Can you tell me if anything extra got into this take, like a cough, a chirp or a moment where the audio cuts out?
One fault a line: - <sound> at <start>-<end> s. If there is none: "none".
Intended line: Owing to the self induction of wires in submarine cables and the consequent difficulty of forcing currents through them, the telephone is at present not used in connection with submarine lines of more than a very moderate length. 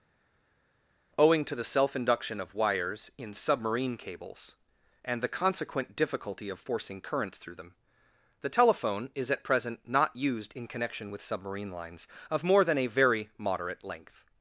none